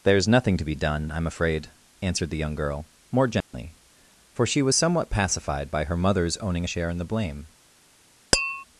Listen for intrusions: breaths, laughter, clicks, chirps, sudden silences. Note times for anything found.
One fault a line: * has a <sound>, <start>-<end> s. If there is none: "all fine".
* has a dropout, 3.4-3.5 s
* has a tap, 8.3-8.6 s